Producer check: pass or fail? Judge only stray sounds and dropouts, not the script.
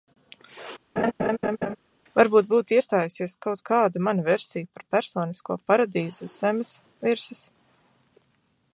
fail